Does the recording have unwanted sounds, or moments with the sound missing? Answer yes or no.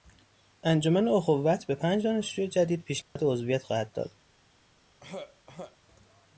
yes